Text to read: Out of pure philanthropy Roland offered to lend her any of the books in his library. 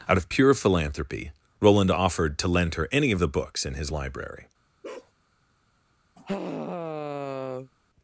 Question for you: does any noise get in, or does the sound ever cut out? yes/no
yes